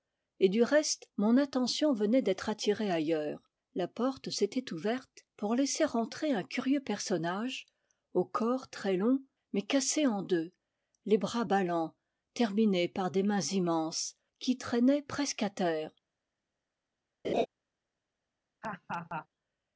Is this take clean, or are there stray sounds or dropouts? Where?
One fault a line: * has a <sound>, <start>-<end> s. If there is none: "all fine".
* has a laugh, 17.2-17.5 s
* has a laugh, 18.6-19.3 s